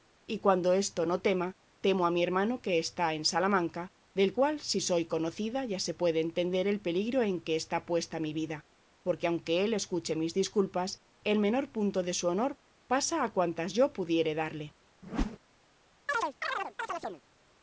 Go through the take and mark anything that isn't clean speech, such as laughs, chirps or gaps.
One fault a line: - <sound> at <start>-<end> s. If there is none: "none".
- whoosh at 15.0-15.4 s
- chirp at 16.1-17.2 s